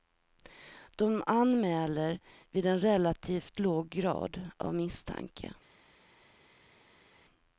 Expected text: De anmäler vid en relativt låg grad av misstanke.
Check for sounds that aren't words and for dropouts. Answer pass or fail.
pass